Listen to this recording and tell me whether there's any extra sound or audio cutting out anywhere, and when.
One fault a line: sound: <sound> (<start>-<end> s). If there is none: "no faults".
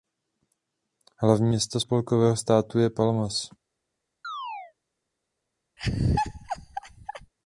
sound: chirp (4.2-4.7 s)
sound: laugh (5.8-7.3 s)